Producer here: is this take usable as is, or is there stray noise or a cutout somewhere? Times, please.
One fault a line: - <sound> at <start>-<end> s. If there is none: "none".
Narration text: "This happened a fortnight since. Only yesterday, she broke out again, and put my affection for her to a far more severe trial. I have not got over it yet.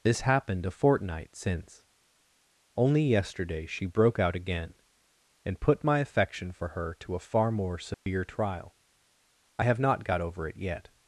- dropout at 7.9-8.1 s